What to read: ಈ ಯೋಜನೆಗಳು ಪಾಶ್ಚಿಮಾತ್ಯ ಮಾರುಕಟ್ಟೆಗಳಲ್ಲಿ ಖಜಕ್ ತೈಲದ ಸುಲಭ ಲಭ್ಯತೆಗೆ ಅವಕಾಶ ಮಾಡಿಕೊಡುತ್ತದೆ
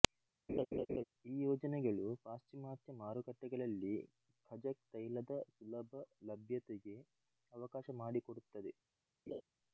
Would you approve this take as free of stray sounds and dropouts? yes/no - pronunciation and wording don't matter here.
no